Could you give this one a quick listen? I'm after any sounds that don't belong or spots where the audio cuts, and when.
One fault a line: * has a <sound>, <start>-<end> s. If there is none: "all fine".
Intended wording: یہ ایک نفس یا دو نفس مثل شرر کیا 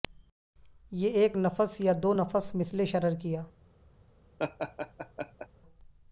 * has a laugh, 4.4-5.5 s